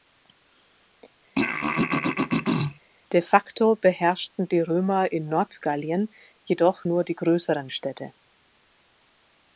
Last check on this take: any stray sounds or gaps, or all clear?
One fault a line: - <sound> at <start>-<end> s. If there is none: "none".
- throat clearing at 1.3-2.8 s